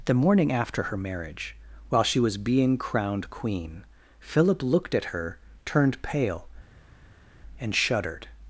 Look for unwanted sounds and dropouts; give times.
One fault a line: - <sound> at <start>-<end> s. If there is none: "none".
none